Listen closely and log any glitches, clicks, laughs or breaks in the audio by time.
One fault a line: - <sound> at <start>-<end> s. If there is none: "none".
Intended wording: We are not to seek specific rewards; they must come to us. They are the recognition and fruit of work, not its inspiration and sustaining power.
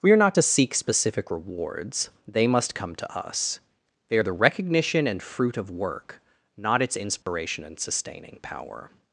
- dropout at 7.2-7.3 s